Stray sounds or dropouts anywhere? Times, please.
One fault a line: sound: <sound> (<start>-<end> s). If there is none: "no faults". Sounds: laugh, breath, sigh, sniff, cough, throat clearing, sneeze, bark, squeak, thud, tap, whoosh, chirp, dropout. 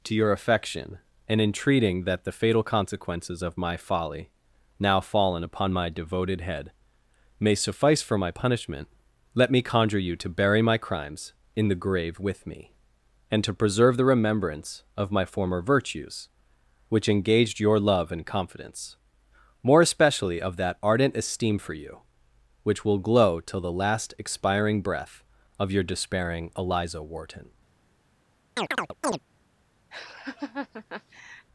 sound: chirp (28.6-29.2 s)
sound: laugh (29.9-31.5 s)